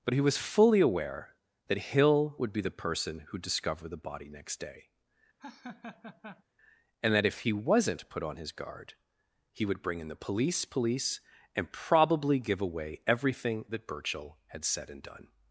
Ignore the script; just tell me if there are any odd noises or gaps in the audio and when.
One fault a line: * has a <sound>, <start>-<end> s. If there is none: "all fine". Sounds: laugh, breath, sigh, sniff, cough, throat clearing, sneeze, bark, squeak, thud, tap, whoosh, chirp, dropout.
* has a laugh, 5.4-6.4 s